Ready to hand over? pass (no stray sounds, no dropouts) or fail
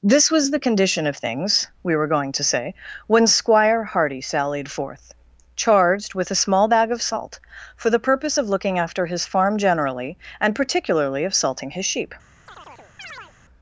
fail